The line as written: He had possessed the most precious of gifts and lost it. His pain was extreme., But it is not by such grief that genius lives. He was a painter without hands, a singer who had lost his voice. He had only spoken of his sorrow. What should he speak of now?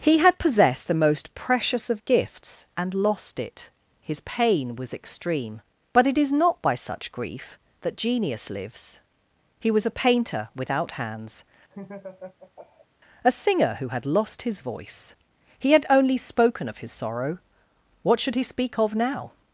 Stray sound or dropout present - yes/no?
yes